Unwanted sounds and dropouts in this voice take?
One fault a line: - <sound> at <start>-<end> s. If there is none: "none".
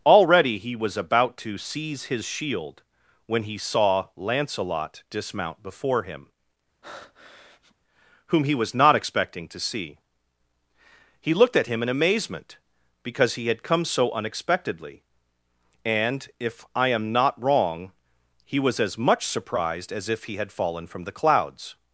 - breath at 6.8-7.8 s